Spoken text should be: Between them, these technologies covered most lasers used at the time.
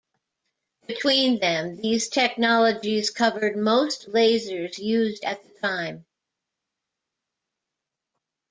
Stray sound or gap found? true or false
false